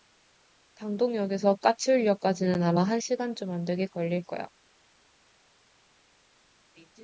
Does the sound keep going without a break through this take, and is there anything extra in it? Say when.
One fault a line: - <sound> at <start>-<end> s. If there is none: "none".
none